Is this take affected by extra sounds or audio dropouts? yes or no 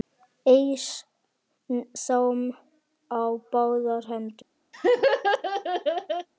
yes